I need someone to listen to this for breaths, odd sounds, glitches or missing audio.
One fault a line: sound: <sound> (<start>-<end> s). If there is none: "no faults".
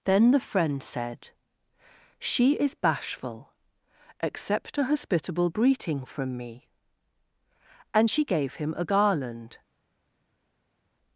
no faults